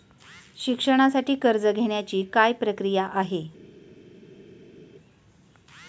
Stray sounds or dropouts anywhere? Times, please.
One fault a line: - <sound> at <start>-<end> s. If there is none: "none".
none